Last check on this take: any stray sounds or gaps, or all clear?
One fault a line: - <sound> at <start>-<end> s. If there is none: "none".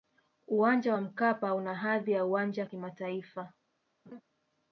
- laugh at 4.1-4.2 s